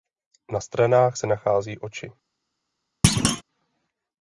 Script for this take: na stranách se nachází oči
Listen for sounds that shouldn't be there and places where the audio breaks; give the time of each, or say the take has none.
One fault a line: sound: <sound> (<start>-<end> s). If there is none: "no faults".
sound: thud (3.0-3.4 s)